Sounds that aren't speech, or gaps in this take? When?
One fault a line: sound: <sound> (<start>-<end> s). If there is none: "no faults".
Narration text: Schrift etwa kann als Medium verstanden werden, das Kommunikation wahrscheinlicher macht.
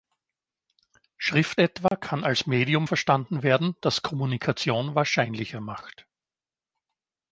sound: dropout (1.9-1.9 s)